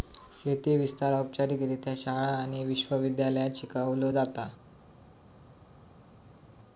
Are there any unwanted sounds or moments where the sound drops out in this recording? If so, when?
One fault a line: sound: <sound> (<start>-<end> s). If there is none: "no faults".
no faults